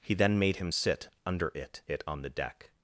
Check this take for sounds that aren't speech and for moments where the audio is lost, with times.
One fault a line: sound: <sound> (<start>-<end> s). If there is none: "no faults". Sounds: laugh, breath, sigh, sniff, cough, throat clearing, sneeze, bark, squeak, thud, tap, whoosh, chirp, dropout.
no faults